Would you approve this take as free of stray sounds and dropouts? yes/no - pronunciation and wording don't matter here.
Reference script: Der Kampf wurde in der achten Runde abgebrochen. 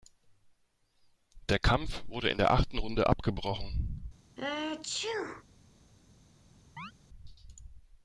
no